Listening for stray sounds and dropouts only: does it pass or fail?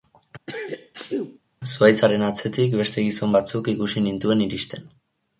fail